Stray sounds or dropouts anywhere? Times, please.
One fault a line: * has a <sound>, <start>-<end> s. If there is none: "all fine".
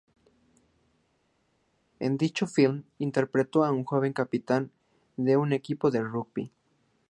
all fine